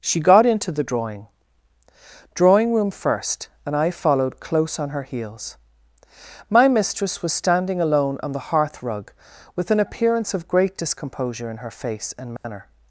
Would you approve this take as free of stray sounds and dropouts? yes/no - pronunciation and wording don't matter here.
no